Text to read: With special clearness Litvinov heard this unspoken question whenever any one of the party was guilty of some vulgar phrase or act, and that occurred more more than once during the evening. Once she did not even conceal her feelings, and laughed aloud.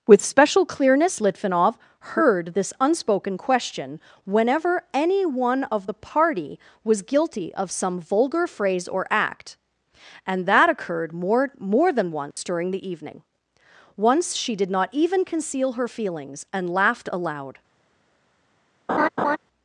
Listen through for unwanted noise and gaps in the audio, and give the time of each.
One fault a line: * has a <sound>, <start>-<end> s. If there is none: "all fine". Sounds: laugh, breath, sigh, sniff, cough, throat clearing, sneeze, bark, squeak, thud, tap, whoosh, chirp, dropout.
* has a dropout, 12.3-12.4 s
* has a laugh, 18.9-19.4 s